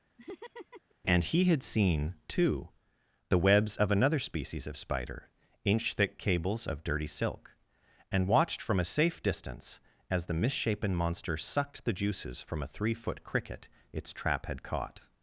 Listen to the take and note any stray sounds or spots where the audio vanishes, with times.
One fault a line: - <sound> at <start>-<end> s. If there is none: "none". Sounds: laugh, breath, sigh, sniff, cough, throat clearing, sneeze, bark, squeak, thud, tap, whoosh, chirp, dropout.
- laugh at 0.2-1.0 s